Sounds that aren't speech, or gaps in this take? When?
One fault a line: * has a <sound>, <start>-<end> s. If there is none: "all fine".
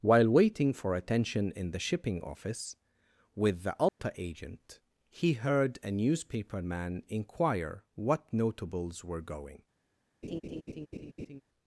* has a dropout, 3.9-4.0 s
* has a laugh, 10.2-11.4 s